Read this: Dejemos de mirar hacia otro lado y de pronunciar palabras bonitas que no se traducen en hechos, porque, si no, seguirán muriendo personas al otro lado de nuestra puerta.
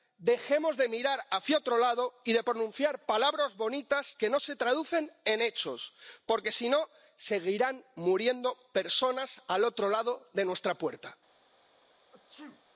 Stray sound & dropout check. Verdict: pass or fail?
fail